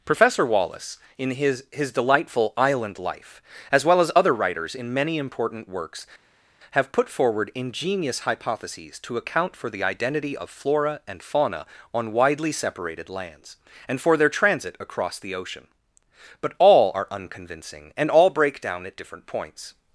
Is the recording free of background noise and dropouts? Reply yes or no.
yes